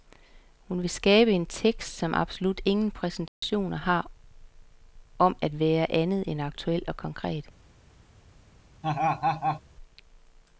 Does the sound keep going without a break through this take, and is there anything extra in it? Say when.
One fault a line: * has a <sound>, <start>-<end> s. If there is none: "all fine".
* has a dropout, 3.3-3.4 s
* has a laugh, 8.8-9.6 s